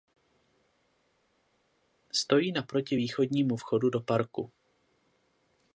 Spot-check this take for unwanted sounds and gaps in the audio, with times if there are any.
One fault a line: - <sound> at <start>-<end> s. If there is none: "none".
none